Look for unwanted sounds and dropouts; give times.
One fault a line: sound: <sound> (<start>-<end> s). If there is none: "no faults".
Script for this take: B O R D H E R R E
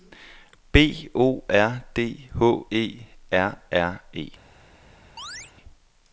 sound: chirp (5.2-5.5 s)